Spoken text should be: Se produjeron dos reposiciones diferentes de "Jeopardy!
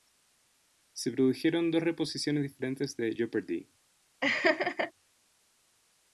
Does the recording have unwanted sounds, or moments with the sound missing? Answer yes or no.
yes